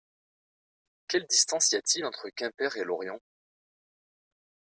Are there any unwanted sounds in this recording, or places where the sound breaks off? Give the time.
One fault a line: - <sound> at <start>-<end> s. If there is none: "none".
none